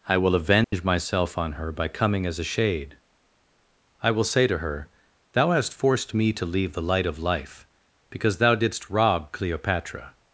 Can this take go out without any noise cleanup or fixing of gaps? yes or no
no